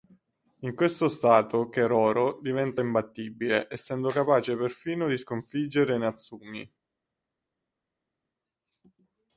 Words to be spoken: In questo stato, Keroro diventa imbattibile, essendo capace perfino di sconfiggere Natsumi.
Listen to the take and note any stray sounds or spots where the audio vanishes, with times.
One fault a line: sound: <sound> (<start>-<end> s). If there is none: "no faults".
no faults